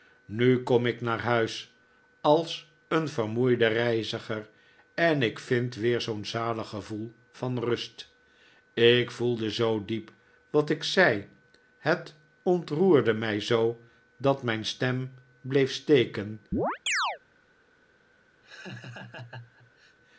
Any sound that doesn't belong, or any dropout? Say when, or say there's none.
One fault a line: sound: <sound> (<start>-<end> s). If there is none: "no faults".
sound: chirp (16.5-17.2 s)
sound: laugh (18.4-20.0 s)